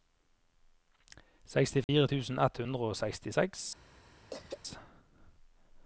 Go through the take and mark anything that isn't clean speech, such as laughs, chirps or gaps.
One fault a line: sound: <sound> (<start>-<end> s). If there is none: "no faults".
sound: dropout (1.8-1.9 s)
sound: throat clearing (4.3-4.6 s)